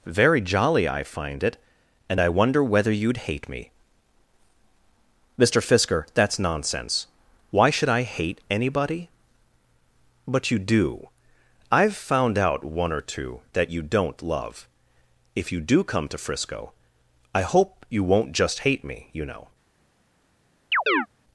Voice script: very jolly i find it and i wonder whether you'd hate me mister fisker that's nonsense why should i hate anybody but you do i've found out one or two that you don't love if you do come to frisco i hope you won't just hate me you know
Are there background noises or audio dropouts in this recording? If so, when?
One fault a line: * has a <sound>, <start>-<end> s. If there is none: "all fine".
* has a chirp, 20.7-21.1 s